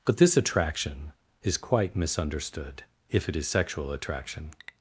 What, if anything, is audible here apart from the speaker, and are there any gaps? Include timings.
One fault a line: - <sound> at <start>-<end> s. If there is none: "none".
none